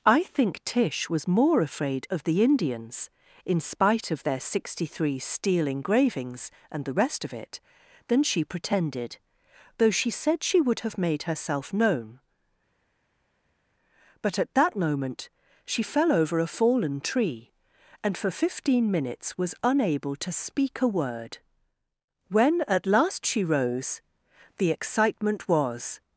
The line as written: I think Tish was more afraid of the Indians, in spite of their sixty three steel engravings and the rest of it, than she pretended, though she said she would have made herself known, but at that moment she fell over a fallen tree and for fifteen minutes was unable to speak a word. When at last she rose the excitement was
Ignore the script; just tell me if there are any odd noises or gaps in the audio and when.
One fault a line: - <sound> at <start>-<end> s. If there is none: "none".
none